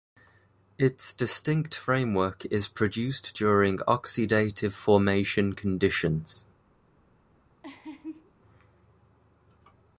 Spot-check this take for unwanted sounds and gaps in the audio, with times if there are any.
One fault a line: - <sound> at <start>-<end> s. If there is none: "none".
- laugh at 7.6-8.3 s